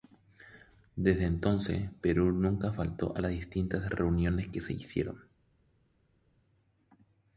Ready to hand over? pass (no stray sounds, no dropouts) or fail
pass